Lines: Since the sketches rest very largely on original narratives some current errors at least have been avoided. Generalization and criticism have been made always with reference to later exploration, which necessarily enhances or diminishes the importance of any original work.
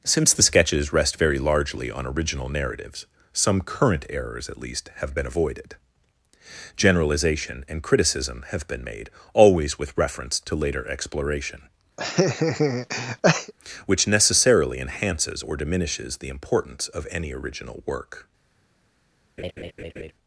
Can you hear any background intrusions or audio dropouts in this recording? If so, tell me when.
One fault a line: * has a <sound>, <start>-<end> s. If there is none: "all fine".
* has a laugh, 12.0-13.5 s
* has a laugh, 19.4-20.1 s